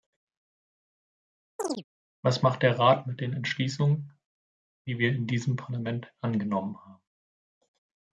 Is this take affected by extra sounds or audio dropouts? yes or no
yes